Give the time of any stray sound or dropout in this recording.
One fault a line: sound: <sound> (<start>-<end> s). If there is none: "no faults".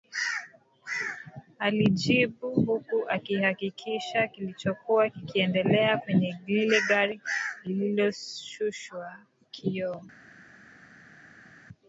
no faults